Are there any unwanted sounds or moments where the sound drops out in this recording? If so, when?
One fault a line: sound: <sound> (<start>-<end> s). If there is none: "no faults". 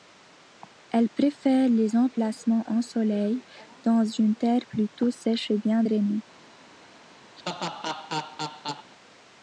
sound: laugh (7.4-8.9 s)